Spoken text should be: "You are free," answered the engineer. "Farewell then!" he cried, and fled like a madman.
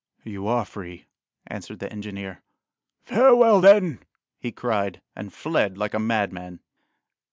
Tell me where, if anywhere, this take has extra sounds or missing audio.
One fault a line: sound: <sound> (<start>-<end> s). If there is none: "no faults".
no faults